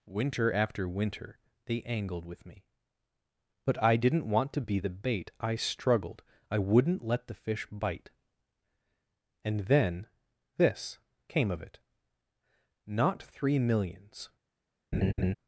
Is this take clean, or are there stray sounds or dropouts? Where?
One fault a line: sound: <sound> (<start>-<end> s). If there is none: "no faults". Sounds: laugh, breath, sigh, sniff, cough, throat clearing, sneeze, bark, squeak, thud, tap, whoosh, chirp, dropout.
sound: laugh (14.9-15.4 s)